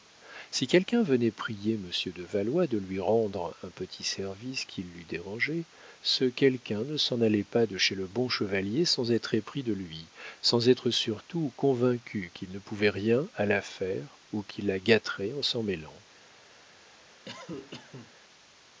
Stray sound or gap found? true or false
true